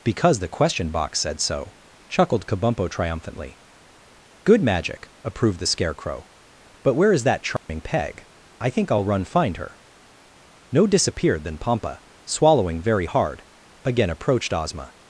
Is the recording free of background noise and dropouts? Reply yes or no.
no